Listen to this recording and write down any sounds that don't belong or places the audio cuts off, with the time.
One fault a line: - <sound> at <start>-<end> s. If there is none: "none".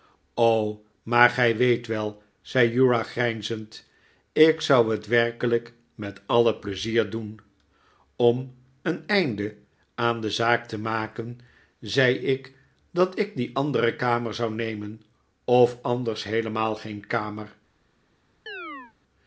- chirp at 18.5-18.9 s